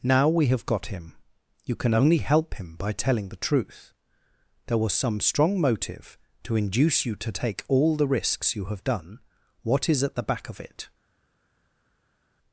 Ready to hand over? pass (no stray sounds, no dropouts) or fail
pass